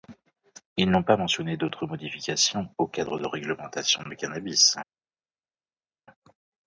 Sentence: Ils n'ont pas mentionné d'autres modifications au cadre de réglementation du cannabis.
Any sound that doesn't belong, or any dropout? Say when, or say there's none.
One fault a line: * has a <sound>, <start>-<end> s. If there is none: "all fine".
all fine